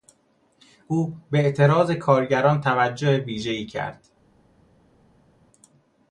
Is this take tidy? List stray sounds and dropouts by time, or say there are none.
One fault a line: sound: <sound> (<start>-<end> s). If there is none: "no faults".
no faults